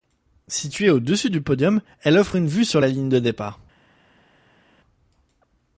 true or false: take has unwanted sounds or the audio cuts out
false